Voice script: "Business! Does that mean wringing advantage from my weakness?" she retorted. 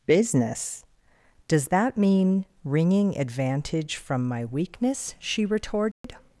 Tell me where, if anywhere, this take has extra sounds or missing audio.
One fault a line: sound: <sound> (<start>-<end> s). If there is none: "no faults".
sound: dropout (5.9-6.0 s)